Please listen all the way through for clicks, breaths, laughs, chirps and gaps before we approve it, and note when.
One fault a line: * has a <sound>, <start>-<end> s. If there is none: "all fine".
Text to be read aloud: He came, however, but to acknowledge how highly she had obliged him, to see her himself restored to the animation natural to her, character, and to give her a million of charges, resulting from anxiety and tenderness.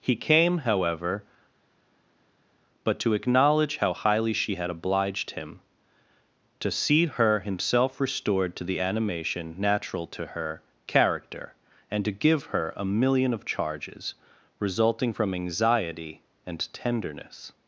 all fine